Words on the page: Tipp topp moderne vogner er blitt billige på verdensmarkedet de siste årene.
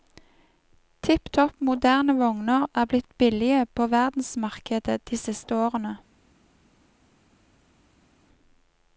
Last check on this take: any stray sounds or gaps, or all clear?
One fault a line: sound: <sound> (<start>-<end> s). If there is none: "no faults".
no faults